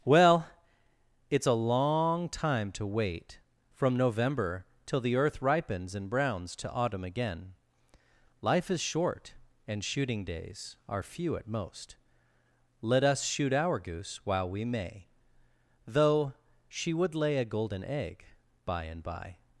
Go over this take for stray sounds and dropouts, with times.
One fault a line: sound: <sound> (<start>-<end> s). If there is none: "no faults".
no faults